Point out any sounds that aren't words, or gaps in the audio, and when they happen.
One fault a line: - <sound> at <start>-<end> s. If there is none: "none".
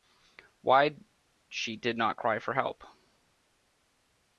none